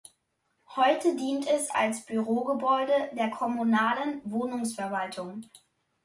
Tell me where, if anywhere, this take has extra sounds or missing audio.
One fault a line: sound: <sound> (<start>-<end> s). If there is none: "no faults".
no faults